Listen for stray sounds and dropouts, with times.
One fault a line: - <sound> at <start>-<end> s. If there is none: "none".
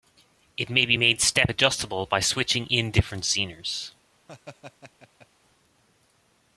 - laugh at 4.3-5.3 s